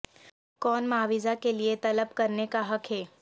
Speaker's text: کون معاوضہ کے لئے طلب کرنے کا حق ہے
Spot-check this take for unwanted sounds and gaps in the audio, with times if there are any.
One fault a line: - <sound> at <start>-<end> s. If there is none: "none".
none